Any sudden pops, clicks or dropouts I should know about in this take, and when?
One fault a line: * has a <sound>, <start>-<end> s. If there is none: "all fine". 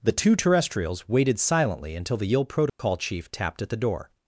* has a dropout, 2.7-2.8 s